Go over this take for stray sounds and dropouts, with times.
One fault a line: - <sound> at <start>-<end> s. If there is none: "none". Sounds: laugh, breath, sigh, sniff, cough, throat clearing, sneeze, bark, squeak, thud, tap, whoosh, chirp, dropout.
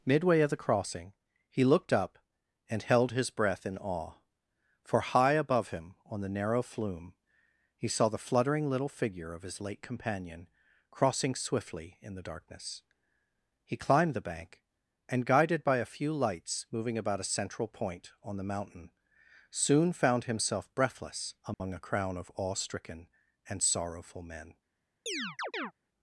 - dropout at 21.5-21.6 s
- chirp at 25.1-25.7 s